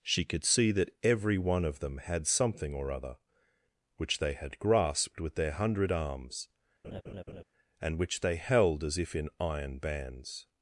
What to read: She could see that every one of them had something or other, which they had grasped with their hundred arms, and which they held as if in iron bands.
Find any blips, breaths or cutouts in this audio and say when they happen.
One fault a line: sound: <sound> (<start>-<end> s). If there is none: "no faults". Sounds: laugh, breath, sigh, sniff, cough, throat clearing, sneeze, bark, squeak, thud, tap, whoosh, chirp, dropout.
sound: laugh (6.8-7.4 s)